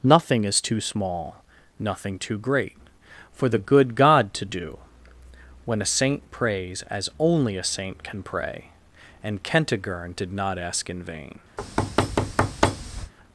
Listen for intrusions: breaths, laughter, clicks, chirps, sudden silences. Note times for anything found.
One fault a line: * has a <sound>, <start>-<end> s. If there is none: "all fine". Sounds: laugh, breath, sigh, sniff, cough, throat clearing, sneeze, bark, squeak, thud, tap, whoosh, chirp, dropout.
* has a thud, 11.6-13.1 s